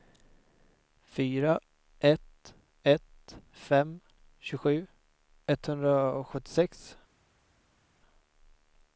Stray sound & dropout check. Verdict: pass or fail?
pass